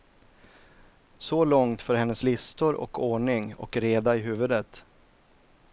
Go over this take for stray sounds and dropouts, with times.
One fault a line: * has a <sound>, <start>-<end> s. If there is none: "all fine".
all fine